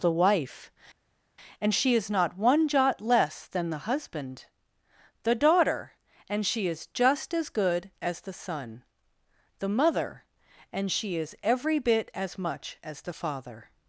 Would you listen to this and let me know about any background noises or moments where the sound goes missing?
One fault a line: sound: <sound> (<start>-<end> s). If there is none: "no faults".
no faults